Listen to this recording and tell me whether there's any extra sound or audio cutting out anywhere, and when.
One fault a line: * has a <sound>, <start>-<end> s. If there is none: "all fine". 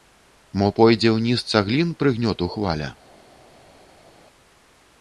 all fine